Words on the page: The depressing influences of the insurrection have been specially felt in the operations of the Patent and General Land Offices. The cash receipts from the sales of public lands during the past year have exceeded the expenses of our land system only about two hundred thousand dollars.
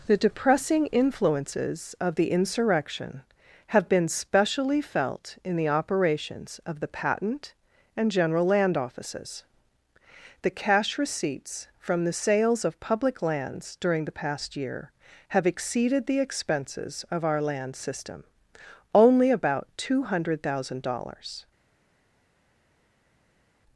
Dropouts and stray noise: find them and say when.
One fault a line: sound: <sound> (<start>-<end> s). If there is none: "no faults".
no faults